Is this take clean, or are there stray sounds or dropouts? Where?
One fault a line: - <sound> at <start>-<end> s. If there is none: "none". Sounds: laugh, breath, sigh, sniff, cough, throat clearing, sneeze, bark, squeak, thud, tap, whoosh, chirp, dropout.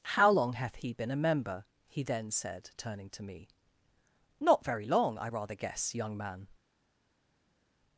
none